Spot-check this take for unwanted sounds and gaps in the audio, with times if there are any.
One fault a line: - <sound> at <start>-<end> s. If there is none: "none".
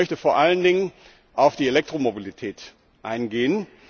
none